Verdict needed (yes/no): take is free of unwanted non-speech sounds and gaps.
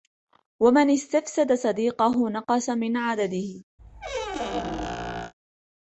no